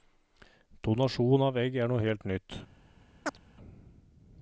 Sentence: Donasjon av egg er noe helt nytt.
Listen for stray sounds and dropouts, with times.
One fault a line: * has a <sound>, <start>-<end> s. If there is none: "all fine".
* has a chirp, 3.3-3.4 s